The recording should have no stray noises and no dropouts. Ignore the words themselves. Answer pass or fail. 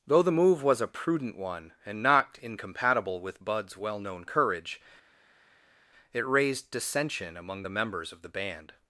pass